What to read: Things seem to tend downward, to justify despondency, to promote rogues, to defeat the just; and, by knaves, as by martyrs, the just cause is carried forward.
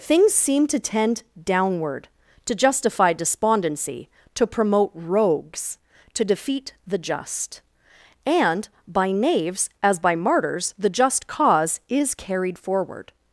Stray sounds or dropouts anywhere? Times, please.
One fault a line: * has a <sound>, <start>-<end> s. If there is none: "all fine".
all fine